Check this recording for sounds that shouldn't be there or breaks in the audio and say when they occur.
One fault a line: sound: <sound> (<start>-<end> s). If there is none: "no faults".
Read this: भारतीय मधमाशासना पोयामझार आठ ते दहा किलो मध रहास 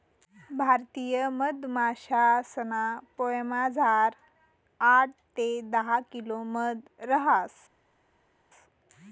no faults